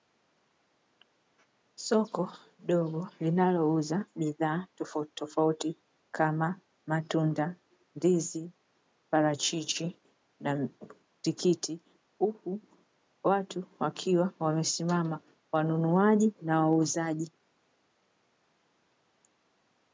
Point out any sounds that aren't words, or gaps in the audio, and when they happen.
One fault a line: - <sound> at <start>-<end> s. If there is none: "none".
none